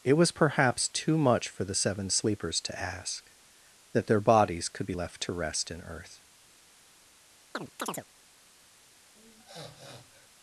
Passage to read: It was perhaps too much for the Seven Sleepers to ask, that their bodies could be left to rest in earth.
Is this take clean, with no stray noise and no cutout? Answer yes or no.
no